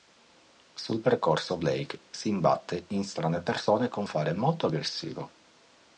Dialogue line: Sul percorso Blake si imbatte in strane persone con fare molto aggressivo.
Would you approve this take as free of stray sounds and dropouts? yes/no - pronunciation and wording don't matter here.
yes